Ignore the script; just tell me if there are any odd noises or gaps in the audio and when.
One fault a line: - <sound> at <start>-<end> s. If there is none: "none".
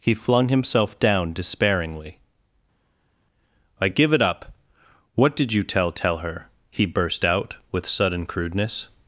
none